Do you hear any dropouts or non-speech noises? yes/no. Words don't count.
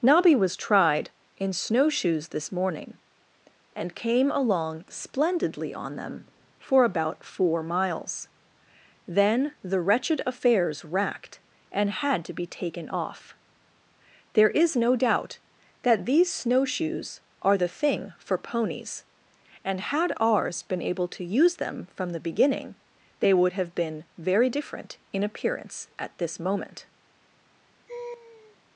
yes